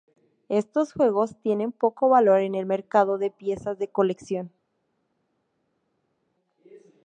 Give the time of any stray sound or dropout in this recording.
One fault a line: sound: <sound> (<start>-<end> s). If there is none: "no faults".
no faults